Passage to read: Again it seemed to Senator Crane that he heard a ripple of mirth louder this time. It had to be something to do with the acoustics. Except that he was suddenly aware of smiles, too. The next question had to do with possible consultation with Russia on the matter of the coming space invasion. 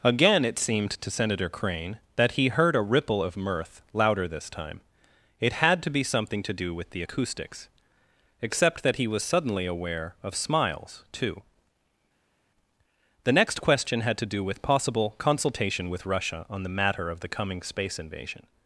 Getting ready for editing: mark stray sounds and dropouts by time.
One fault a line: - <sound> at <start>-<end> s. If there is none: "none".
none